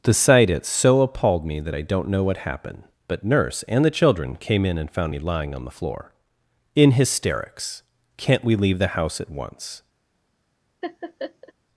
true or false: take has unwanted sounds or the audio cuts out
true